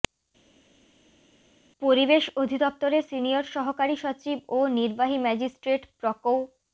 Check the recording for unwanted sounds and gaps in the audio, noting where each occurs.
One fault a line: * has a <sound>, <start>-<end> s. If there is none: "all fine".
all fine